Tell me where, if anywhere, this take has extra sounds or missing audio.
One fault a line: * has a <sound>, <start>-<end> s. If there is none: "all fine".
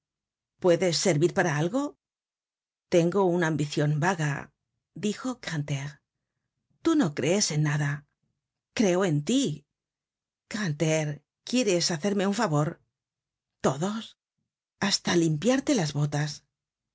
all fine